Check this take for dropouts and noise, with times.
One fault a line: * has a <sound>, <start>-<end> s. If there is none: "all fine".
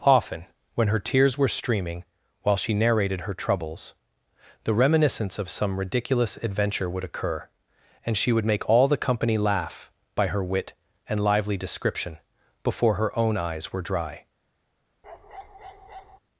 * has a bark, 15.0-16.2 s